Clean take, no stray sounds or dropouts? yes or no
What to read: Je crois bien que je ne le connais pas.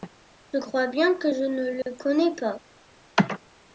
no